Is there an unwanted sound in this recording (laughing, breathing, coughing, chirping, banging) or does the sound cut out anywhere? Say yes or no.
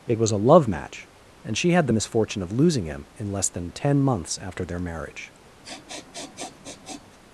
yes